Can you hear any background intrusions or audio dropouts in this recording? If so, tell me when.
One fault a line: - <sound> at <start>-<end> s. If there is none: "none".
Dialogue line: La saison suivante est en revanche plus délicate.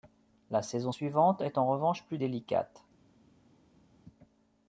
none